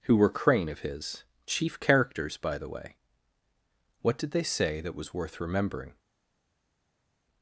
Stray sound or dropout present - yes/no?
no